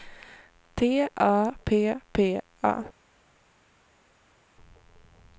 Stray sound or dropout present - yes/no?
no